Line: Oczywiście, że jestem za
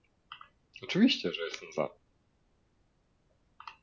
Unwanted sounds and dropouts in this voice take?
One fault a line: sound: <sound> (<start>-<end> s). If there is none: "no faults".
no faults